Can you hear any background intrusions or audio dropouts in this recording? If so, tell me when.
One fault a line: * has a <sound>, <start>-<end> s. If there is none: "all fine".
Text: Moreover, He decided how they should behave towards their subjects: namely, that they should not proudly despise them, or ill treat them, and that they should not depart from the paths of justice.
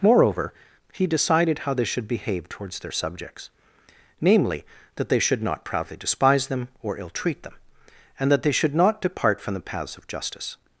all fine